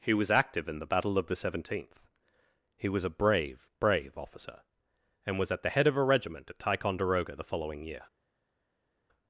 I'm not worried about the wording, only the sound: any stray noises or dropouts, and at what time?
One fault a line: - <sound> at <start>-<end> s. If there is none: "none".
none